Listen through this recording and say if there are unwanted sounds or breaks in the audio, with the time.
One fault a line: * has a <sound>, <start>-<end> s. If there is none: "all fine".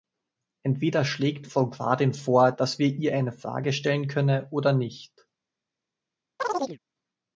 * has a chirp, 6.4-6.8 s